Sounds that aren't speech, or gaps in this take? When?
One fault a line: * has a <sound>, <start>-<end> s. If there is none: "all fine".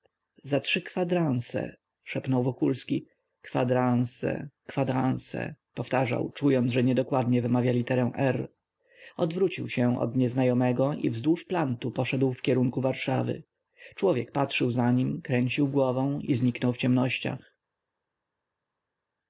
all fine